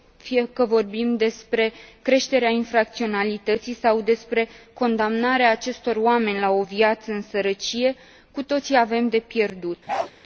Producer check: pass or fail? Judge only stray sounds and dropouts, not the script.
fail